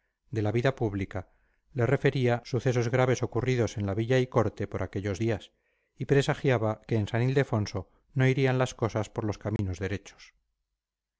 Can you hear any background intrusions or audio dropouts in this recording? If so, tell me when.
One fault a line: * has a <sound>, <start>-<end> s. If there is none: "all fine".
* has a dropout, 9.6-9.6 s